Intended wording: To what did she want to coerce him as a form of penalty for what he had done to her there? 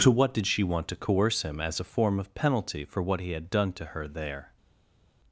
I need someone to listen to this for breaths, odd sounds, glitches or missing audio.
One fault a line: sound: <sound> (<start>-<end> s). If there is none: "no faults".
no faults